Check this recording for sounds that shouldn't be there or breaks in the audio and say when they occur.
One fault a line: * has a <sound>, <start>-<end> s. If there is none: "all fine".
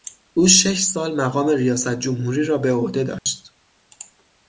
* has a dropout, 3.2-3.3 s